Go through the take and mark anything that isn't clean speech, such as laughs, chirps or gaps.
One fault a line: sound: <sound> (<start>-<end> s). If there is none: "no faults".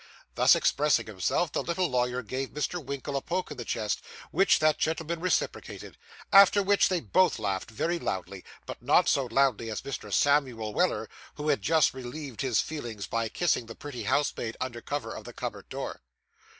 no faults